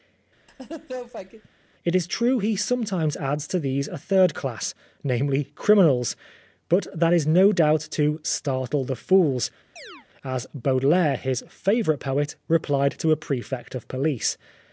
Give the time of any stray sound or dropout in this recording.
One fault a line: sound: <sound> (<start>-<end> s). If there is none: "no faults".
sound: laugh (0.5-1.5 s)
sound: chirp (9.8-10.1 s)